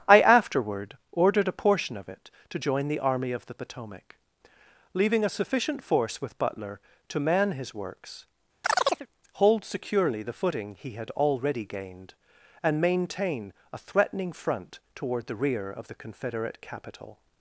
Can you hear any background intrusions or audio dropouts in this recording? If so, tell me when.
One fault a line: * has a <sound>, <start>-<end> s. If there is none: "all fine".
* has a chirp, 8.6-9.1 s